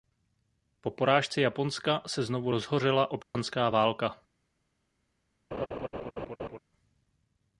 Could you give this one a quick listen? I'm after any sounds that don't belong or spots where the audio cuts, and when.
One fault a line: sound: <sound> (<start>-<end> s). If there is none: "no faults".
sound: dropout (3.2-3.3 s)
sound: laugh (5.5-6.6 s)